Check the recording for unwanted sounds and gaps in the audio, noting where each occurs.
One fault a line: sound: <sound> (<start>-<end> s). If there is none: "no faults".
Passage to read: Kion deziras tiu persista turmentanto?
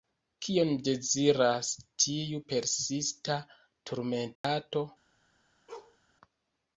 sound: dropout (4.4-4.4 s)
sound: bark (5.7-6.0 s)